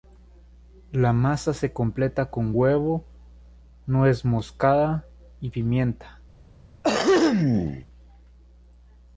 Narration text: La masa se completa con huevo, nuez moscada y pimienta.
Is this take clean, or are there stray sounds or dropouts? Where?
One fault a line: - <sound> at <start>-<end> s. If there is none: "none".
- throat clearing at 6.8-7.9 s